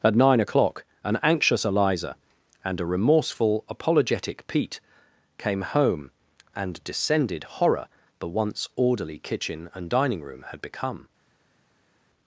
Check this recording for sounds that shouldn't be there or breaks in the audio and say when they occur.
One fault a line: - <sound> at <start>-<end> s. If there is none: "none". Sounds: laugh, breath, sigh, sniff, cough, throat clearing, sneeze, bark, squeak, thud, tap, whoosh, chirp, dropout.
none